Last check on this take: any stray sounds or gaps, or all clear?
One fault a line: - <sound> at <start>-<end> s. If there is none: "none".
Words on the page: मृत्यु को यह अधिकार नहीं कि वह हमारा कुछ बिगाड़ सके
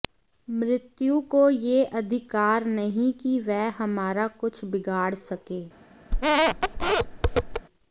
- squeak at 6.1-7.7 s